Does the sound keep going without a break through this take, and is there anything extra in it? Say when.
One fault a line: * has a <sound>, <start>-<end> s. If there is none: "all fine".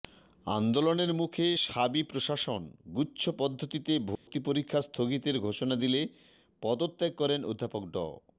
* has a dropout, 4.2-4.3 s